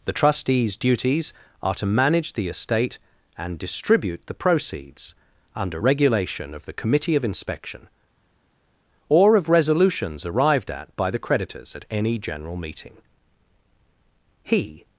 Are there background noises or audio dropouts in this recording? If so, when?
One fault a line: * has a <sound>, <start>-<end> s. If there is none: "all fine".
all fine